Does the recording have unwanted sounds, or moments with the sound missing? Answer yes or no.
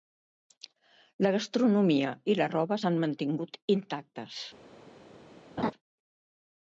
yes